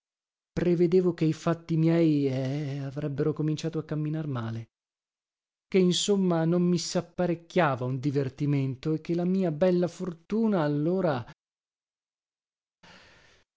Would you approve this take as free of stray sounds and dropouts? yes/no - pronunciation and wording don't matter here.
yes